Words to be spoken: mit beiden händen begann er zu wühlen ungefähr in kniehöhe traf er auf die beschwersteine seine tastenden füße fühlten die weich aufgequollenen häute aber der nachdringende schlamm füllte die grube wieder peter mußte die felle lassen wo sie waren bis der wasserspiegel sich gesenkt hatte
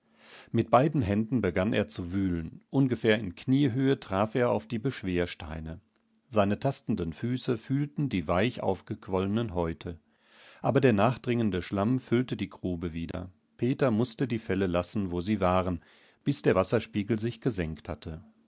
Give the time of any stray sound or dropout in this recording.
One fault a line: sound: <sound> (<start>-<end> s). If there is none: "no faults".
sound: dropout (13.1-13.1 s)